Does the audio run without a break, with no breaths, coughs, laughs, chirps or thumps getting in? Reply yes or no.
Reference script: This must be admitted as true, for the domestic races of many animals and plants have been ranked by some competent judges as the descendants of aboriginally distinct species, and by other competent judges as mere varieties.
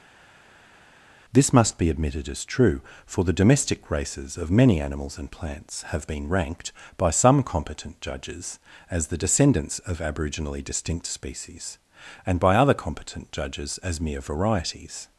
yes